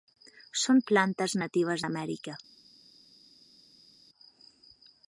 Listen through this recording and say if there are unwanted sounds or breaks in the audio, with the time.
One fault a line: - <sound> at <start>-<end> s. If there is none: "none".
none